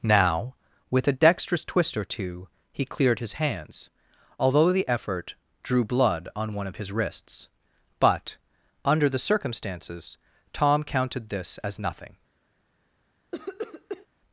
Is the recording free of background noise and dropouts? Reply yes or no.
no